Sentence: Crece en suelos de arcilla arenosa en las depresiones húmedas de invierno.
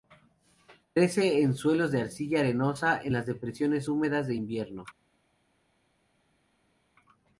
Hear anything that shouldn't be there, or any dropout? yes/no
no